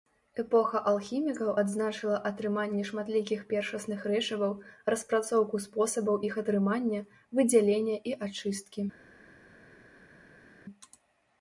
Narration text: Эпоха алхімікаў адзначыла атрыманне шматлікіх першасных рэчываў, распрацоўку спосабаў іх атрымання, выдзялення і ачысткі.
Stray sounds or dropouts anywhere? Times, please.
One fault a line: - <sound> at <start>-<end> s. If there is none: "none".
none